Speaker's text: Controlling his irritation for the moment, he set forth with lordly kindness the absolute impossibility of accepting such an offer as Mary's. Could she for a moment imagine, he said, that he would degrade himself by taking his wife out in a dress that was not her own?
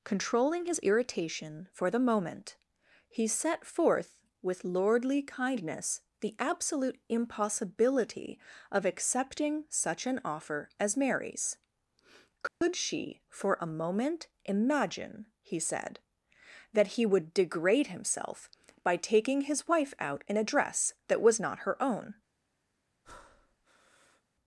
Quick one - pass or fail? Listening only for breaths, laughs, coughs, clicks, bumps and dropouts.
fail